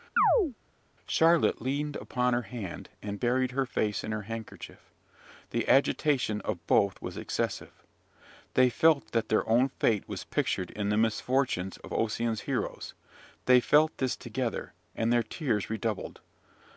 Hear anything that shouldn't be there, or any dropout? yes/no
yes